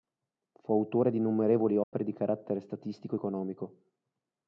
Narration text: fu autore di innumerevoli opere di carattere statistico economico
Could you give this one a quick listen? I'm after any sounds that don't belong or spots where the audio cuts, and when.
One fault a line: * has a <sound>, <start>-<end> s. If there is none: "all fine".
* has a dropout, 1.8-1.9 s